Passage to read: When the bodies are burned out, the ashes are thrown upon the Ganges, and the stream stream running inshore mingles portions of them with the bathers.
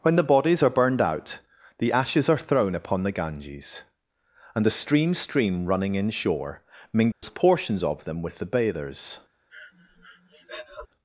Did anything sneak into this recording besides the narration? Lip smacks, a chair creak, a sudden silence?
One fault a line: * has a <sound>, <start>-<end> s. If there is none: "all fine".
* has a dropout, 7.1-7.2 s
* has a breath, 9.5-10.9 s